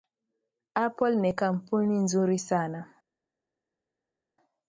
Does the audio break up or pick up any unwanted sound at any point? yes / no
no